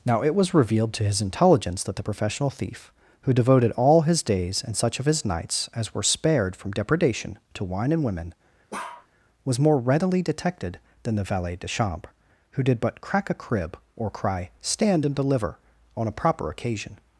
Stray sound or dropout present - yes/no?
yes